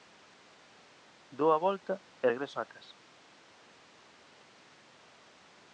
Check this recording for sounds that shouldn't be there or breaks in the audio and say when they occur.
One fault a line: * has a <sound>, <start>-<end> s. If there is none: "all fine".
all fine